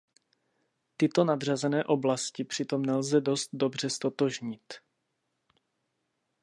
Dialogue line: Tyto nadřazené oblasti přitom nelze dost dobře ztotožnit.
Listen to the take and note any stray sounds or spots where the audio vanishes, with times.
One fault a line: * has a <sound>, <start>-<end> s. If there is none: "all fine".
all fine